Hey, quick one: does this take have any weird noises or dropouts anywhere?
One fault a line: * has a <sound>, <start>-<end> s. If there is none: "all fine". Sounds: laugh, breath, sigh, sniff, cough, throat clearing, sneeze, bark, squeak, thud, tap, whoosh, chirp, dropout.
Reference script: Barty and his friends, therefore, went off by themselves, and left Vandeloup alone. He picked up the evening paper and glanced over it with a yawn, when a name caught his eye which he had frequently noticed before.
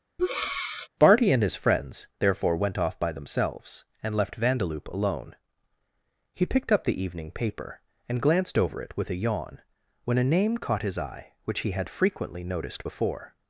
* has a breath, 0.2-0.9 s